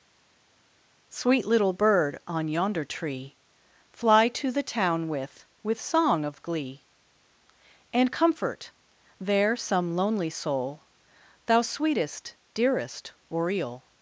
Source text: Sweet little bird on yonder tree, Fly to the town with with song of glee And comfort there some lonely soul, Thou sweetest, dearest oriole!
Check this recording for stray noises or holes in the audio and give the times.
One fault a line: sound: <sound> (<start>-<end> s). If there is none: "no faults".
no faults